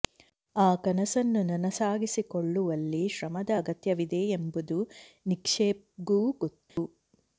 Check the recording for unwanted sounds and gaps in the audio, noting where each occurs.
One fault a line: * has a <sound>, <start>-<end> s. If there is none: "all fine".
* has a dropout, 6.7-6.8 s